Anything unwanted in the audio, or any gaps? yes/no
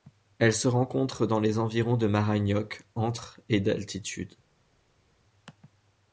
no